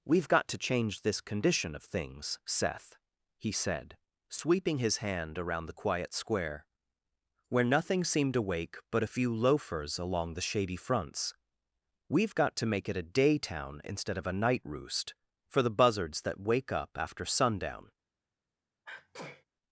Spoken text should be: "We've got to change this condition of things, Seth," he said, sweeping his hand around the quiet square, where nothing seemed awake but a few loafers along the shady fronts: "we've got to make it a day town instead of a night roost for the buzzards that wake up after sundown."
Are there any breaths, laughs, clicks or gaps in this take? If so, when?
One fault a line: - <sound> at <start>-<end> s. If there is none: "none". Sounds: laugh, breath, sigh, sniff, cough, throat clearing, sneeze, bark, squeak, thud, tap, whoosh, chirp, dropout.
- sneeze at 18.8-19.4 s